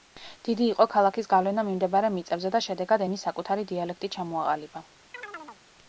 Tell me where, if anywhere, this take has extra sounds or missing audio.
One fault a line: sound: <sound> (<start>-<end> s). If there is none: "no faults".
sound: chirp (5.1-5.6 s)